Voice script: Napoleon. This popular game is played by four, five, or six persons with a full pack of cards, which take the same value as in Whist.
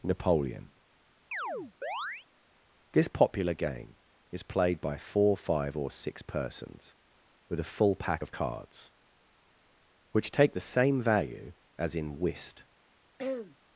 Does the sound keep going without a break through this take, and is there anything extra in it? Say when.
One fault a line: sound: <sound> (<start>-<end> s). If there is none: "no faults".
sound: chirp (1.3-2.3 s)
sound: throat clearing (13.2-13.6 s)